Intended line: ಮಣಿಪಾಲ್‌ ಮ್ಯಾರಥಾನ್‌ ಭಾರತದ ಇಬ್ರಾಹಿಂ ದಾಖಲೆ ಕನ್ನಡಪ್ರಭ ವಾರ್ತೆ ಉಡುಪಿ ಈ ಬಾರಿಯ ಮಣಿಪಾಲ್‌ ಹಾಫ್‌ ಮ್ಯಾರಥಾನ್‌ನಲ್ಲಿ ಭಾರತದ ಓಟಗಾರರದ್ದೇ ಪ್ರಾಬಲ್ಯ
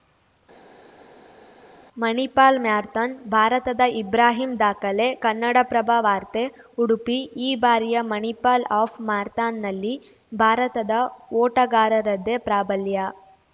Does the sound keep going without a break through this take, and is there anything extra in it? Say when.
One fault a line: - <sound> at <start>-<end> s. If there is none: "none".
none